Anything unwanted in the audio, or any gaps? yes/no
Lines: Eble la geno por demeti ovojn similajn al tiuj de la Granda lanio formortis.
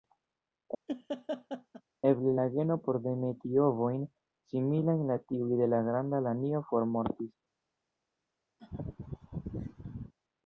yes